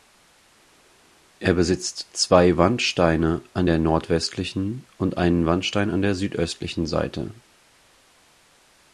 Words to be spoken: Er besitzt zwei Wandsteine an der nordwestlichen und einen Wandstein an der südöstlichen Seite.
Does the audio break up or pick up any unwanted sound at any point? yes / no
no